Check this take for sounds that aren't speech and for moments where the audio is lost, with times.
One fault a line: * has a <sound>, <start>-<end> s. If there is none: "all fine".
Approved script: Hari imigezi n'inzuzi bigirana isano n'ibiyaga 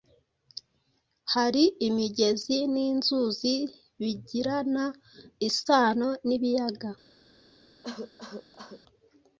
* has a cough, 7.8-8.8 s